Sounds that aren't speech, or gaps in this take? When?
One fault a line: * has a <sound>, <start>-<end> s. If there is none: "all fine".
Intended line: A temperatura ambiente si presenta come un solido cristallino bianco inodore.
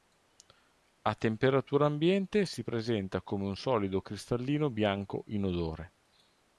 all fine